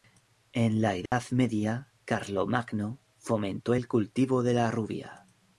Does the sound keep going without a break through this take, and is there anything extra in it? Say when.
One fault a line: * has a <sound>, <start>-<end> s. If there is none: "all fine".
* has a dropout, 1.1-1.1 s